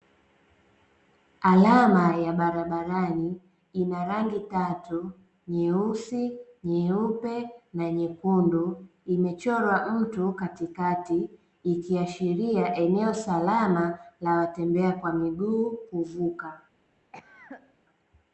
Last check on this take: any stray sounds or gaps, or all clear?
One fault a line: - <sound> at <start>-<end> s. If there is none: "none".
- cough at 17.1-17.8 s